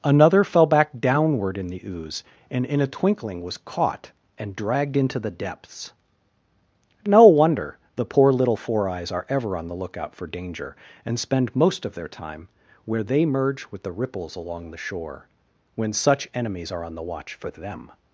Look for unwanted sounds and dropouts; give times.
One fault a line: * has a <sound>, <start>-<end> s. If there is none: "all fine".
all fine